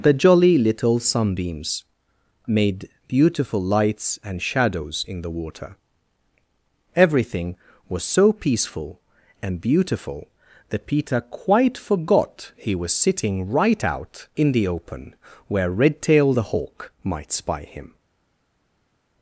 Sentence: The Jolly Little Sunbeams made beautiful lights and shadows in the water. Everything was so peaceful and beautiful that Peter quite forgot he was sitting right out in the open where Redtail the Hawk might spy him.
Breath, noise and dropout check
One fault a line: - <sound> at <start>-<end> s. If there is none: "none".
none